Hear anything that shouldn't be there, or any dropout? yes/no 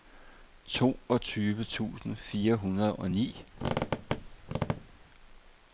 yes